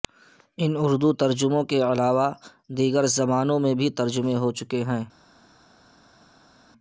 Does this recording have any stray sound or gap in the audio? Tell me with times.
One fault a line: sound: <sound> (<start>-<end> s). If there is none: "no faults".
no faults